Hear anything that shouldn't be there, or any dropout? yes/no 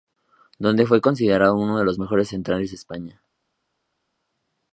no